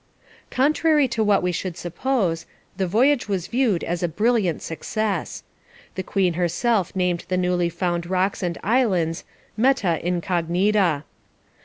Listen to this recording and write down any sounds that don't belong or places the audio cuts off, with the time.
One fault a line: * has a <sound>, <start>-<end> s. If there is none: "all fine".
all fine